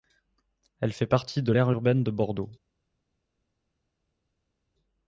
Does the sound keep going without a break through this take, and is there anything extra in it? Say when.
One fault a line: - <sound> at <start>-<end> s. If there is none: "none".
none